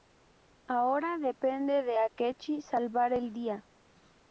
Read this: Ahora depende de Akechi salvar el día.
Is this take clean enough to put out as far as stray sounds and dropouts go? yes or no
yes